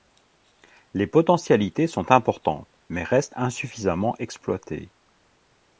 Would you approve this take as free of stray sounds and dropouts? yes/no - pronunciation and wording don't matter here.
yes